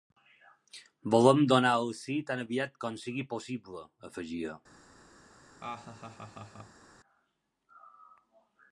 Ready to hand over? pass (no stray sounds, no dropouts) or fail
fail